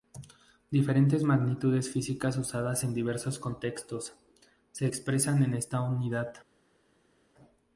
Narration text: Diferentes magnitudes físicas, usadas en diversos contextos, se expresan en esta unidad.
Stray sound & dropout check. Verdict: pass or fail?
pass